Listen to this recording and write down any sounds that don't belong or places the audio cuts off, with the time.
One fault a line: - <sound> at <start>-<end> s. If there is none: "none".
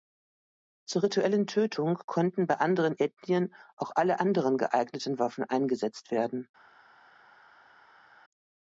none